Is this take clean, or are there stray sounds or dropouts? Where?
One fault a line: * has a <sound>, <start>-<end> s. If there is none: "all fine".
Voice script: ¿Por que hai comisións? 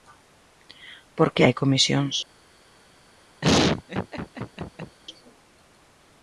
* has a laugh, 3.4-5.0 s